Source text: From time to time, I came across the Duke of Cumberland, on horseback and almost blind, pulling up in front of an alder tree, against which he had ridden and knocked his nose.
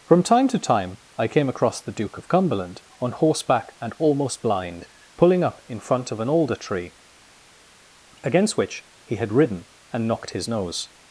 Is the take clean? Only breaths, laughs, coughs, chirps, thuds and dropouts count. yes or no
yes